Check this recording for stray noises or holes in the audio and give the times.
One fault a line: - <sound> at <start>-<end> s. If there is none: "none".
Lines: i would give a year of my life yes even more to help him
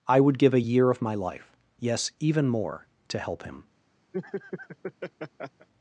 - laugh at 4.1-5.7 s